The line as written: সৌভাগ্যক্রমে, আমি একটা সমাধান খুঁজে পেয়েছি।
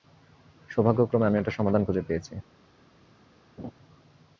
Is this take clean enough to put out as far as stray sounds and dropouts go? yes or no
no